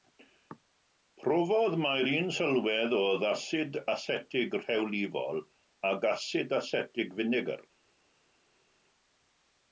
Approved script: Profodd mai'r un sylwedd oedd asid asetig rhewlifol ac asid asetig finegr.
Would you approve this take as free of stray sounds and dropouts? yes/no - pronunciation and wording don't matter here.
yes